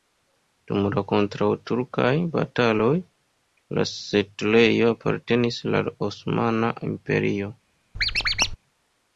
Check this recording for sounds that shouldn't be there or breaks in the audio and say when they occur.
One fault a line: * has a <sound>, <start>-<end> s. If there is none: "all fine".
* has a squeak, 7.9-8.6 s